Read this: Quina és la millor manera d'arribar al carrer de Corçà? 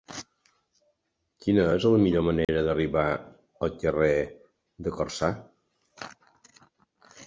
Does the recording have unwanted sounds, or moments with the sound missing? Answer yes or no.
yes